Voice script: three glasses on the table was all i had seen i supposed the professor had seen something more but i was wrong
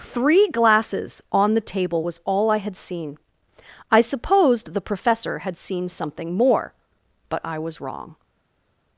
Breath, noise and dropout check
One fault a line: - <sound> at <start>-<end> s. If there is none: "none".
none